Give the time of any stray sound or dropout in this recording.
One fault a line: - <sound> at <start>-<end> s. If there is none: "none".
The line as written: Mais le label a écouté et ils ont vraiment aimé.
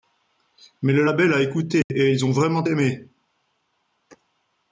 - dropout at 1.8-1.9 s